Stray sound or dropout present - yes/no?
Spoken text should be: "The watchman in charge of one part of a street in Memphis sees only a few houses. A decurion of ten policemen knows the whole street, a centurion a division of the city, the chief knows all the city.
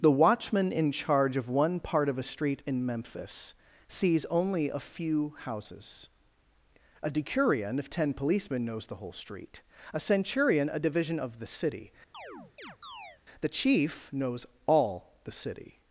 yes